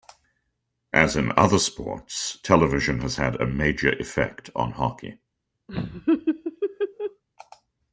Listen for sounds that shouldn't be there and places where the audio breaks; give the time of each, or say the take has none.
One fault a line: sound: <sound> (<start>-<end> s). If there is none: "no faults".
sound: laugh (5.7-7.2 s)